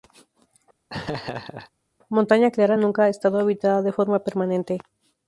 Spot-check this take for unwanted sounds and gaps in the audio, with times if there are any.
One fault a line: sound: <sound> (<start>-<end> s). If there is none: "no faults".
sound: laugh (0.9-1.7 s)